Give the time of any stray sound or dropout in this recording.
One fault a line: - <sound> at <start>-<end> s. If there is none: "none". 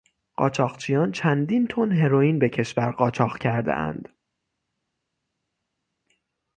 none